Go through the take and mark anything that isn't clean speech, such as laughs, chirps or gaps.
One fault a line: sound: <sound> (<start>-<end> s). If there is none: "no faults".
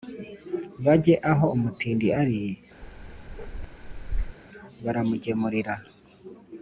sound: bark (2.8-4.4 s)